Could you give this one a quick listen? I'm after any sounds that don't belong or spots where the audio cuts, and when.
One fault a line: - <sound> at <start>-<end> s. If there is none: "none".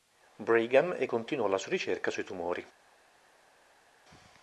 none